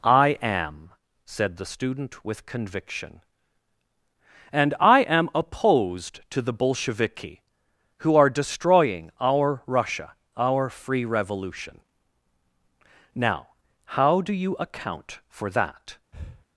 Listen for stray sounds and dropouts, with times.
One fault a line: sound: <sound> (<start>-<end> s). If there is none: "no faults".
sound: breath (16.1-16.5 s)